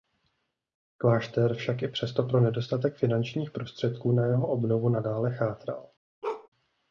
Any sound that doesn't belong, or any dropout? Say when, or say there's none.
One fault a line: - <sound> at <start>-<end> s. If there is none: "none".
- bark at 6.2-6.5 s